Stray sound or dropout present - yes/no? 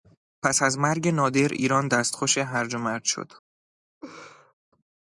yes